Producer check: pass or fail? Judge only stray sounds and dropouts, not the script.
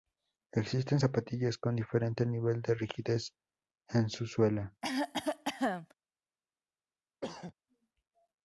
fail